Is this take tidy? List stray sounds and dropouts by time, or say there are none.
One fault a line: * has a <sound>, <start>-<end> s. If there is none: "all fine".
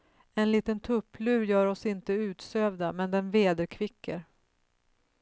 all fine